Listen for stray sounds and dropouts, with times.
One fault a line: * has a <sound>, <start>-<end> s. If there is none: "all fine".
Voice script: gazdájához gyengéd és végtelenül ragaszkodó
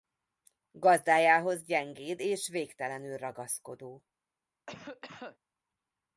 * has a cough, 4.7-5.4 s